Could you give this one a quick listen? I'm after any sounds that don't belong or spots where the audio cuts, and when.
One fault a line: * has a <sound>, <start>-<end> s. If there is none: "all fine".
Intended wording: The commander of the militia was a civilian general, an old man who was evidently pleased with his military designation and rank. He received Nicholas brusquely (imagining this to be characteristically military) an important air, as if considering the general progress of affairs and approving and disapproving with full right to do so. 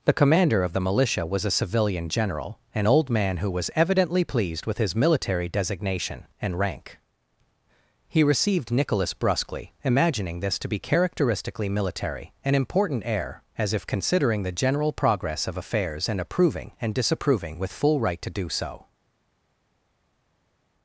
all fine